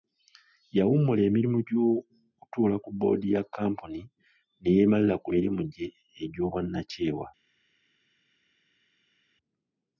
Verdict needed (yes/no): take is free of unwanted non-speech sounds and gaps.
yes